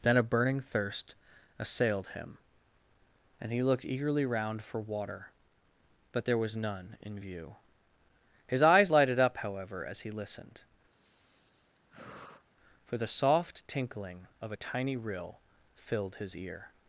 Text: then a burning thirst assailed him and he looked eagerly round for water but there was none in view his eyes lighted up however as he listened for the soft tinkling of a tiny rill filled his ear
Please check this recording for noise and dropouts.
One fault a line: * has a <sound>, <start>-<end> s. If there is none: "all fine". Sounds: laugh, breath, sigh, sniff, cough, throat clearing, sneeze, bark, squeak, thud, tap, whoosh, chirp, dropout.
* has a sigh, 10.9-12.5 s